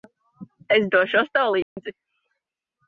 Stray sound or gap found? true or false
true